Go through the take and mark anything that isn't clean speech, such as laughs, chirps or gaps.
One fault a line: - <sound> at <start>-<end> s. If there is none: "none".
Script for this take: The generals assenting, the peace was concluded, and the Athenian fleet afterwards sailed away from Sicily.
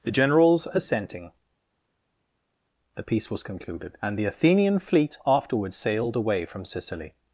none